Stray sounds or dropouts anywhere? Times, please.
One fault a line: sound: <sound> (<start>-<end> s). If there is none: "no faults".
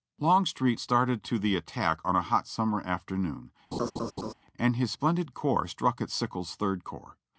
sound: laugh (3.7-4.3 s)